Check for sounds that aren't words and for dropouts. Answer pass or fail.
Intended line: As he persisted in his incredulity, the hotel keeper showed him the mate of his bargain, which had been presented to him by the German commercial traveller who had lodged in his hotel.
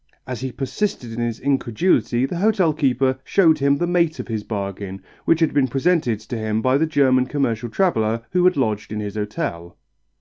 pass